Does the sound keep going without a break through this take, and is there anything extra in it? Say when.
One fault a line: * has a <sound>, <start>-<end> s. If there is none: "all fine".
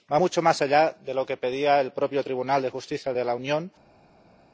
all fine